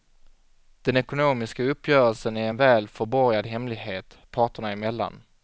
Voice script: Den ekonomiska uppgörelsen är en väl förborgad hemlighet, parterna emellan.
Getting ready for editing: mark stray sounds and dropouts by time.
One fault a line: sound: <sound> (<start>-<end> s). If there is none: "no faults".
no faults